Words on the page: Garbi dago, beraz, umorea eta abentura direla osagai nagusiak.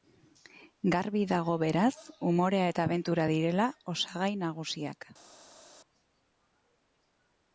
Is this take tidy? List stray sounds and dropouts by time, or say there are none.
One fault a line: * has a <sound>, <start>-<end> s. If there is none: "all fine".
all fine